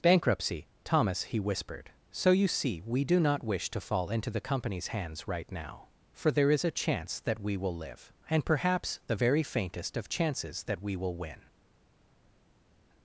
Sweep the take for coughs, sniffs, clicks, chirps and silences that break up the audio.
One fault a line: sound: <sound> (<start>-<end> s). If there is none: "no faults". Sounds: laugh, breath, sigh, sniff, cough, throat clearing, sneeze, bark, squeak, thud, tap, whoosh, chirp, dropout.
no faults